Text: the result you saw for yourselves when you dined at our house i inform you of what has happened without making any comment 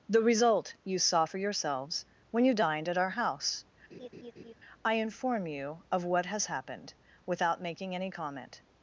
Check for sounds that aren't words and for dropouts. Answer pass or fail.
fail